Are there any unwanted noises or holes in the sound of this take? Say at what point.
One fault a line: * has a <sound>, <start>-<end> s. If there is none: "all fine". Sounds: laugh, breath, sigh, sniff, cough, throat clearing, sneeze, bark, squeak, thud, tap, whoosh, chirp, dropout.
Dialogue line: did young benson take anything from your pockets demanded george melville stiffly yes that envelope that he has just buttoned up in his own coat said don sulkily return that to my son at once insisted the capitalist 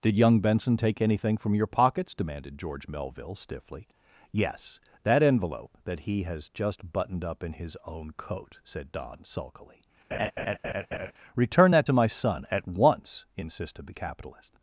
* has a laugh, 10.1-11.1 s